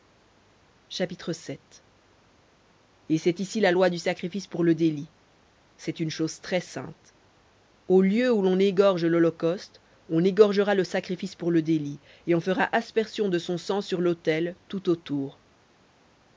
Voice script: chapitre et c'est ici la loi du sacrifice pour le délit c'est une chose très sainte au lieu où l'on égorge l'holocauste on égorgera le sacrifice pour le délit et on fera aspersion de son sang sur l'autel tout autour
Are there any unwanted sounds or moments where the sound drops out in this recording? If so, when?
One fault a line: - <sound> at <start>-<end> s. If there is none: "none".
none